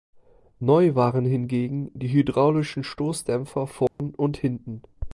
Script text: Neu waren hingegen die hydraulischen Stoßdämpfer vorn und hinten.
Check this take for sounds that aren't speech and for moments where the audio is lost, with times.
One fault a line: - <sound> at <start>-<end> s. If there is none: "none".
- dropout at 3.9-4.0 s